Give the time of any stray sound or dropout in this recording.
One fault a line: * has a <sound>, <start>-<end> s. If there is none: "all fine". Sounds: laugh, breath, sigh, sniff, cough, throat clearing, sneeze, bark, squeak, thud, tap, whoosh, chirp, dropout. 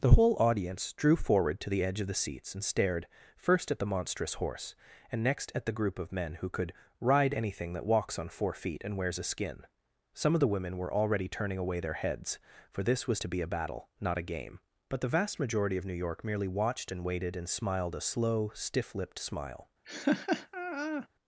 * has a laugh, 19.8-21.1 s